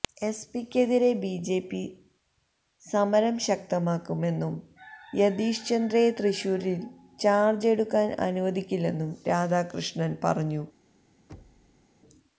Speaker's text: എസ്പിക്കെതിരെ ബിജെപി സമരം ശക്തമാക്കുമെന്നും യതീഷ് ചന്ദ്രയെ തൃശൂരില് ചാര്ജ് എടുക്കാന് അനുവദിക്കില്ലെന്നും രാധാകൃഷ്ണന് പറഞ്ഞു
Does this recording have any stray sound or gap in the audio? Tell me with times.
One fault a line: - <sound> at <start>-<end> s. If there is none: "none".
- thud at 11.3-11.9 s